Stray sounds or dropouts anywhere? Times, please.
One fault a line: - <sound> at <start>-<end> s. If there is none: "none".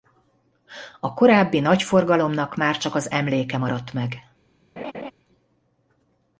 - laugh at 4.8-5.1 s